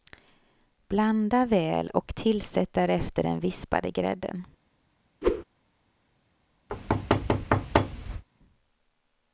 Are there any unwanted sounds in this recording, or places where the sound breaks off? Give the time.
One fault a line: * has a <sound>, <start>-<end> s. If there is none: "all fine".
* has a whoosh, 5.2-5.4 s
* has a thud, 6.7-8.2 s